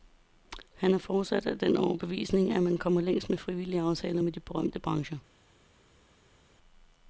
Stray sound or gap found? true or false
false